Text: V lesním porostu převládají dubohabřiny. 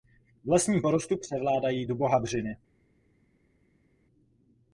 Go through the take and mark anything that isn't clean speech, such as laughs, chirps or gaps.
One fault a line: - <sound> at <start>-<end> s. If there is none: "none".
none